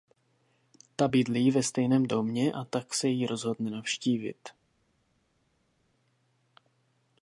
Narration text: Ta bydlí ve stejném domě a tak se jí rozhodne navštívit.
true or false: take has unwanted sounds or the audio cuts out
false